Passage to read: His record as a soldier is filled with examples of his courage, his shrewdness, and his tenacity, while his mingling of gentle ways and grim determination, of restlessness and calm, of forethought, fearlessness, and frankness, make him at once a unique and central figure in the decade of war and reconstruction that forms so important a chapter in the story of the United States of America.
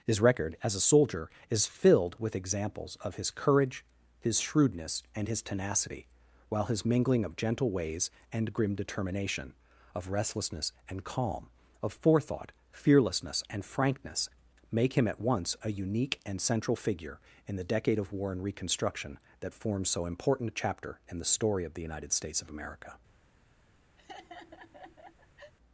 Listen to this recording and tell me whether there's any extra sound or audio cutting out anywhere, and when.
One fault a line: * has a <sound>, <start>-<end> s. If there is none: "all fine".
* has a laugh, 24.0-25.5 s